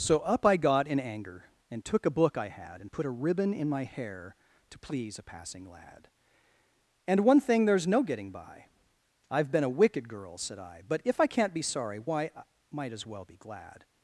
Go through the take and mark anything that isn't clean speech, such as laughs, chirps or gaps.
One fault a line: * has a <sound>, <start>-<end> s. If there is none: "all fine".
all fine